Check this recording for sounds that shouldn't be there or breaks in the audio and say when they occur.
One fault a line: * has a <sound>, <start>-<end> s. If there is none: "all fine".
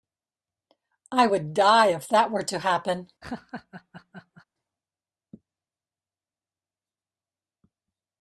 * has a laugh, 3.2-4.5 s